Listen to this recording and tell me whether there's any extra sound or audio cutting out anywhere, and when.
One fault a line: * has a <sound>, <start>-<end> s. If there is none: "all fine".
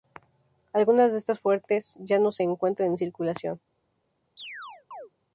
* has a chirp, 4.4-5.1 s